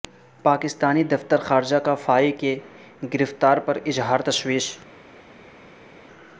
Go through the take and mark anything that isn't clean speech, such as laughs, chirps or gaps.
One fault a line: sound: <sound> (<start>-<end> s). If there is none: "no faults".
no faults